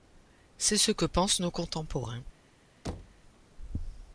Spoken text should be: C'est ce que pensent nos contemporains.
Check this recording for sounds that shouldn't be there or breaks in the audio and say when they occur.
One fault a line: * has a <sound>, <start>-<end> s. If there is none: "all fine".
* has a thud, 2.8-3.2 s